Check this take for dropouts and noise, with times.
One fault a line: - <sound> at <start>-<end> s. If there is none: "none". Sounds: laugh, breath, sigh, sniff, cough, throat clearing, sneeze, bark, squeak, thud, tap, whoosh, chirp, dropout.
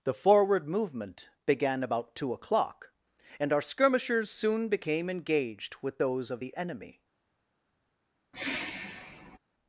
- sigh at 8.3-9.4 s